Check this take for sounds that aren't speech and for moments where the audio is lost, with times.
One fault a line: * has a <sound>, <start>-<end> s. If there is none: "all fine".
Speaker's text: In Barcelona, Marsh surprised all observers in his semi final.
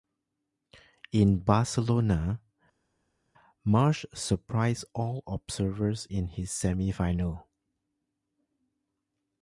all fine